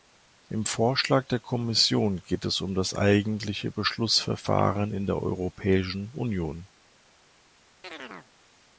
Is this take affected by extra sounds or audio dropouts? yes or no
yes